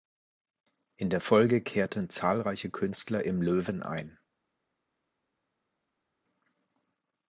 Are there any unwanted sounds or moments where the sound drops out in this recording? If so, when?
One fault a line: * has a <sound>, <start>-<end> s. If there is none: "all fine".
all fine